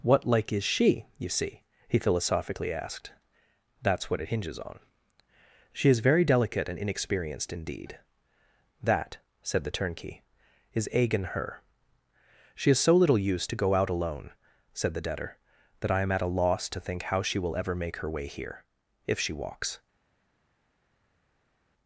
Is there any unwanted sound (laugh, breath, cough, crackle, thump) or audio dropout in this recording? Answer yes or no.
no